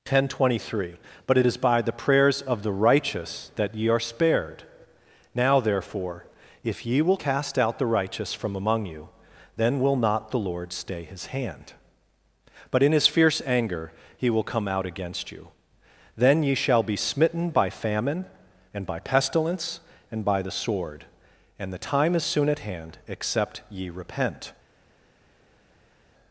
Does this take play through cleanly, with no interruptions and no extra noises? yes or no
yes